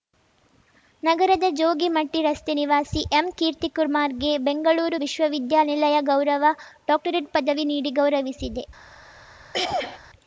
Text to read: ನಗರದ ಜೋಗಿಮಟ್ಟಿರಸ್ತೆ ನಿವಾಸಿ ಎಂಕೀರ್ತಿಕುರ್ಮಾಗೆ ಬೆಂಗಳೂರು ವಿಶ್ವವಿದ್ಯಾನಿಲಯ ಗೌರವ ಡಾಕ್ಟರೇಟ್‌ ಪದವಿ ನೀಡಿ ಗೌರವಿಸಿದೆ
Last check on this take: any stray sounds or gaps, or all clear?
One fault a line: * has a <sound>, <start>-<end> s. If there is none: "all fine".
* has a throat clearing, 9.5-10.0 s